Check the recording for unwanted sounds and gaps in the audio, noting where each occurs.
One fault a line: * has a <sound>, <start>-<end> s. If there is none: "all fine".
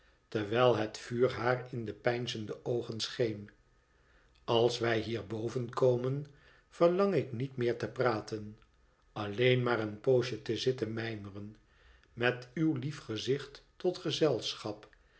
all fine